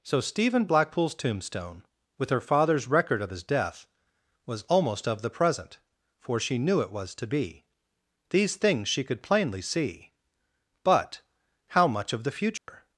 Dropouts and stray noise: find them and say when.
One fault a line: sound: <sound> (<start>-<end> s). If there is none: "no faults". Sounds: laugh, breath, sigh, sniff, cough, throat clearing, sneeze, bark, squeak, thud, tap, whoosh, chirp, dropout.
sound: dropout (12.6-12.7 s)